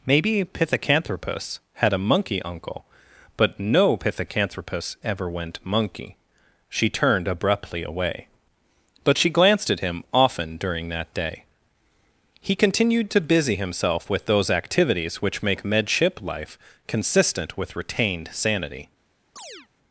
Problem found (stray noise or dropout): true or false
true